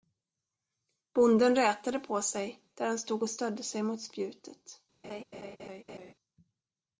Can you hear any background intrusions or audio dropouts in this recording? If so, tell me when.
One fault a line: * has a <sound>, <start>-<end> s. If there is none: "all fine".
* has a laugh, 5.0-6.1 s